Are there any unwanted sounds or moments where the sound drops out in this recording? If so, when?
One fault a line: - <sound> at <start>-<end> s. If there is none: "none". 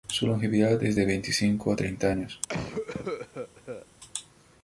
- cough at 2.5-3.9 s